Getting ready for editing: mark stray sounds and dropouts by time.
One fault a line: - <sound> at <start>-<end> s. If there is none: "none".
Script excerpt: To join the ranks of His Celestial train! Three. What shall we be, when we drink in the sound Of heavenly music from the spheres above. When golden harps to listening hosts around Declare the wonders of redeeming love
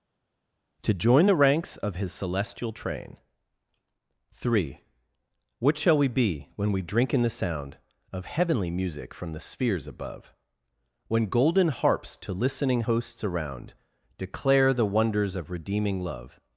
none